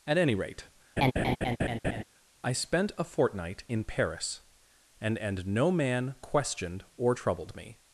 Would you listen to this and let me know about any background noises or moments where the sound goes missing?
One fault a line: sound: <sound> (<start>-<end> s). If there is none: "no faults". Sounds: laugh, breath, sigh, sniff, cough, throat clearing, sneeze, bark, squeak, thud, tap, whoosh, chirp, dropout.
sound: laugh (1.0-2.0 s)